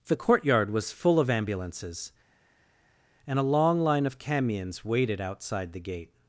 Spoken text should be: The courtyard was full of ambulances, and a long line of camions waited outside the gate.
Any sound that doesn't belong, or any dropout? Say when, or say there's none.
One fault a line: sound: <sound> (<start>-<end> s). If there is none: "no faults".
no faults